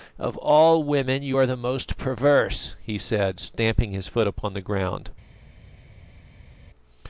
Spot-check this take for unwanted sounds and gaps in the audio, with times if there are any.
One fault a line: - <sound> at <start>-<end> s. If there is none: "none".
none